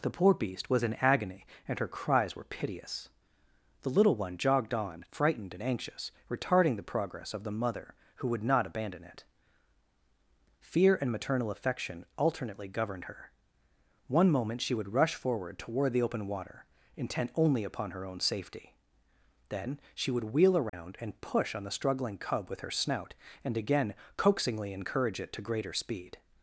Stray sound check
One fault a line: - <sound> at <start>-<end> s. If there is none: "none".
- dropout at 20.7-20.7 s